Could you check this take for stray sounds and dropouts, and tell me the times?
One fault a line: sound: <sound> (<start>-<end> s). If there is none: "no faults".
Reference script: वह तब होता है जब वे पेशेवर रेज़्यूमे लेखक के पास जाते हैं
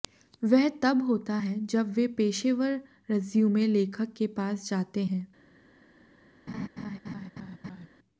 sound: laugh (6.5-7.9 s)